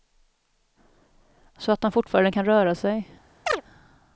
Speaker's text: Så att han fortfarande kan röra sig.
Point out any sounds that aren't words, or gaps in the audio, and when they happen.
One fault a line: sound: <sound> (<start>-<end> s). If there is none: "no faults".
sound: chirp (3.5-3.6 s)